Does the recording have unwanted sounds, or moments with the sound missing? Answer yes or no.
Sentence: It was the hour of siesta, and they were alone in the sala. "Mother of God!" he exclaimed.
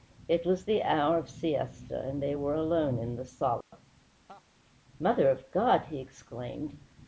yes